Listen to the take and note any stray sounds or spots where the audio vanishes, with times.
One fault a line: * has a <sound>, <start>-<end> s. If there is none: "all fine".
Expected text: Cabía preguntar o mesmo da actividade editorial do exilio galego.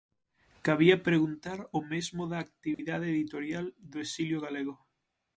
* has a dropout, 2.7-2.8 s